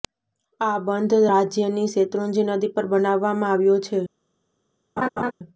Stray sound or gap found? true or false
true